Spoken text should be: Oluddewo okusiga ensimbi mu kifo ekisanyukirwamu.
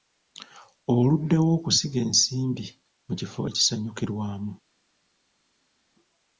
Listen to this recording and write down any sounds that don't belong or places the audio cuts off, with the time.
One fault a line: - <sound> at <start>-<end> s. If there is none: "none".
none